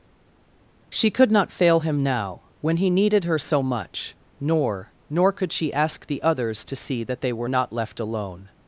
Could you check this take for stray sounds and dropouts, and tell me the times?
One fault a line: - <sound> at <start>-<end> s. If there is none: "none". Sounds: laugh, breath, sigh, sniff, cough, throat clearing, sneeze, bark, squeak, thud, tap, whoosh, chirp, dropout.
none